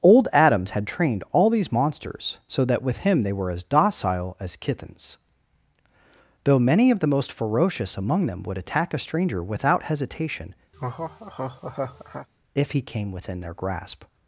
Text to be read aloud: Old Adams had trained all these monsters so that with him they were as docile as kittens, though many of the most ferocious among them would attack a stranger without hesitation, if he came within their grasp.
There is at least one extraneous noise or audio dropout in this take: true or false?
true